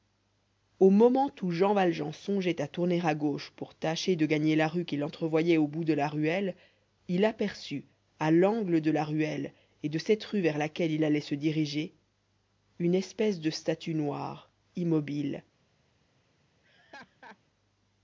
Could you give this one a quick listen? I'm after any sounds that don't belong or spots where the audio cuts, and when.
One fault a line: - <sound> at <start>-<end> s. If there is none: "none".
- laugh at 16.6-17.4 s